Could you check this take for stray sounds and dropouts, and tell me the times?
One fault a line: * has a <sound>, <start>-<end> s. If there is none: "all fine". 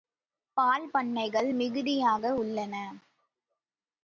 all fine